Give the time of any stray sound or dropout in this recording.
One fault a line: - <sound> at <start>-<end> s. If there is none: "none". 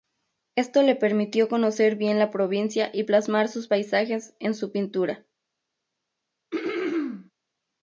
- throat clearing at 6.5-7.3 s